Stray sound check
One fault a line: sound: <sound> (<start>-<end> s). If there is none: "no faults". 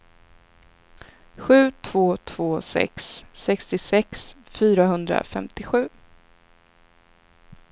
no faults